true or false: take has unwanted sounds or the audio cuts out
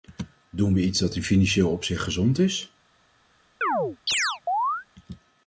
true